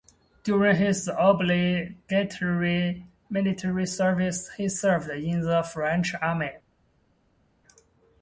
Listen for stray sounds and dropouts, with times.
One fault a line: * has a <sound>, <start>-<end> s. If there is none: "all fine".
all fine